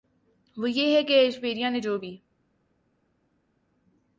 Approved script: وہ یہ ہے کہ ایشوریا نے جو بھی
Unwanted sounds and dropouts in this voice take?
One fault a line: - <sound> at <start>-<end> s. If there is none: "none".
none